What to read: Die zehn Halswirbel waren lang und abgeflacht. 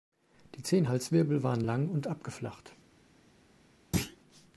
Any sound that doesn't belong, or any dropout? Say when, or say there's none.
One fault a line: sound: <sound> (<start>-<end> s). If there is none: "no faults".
sound: thud (3.9-4.2 s)